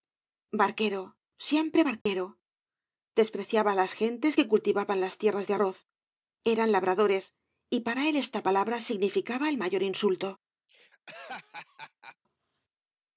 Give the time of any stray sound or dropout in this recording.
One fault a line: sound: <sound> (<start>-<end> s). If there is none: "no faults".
sound: dropout (2.0-2.1 s)
sound: laugh (10.7-12.2 s)